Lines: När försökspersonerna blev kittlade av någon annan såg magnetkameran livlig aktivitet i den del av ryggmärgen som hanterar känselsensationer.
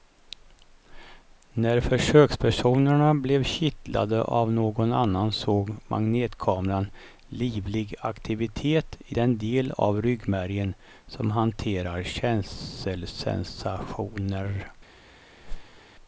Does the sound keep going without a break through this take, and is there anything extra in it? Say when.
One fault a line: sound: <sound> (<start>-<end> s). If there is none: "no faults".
sound: whoosh (15.4-15.8 s)